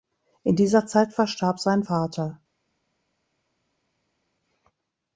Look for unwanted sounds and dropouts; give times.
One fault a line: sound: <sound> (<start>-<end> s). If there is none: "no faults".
no faults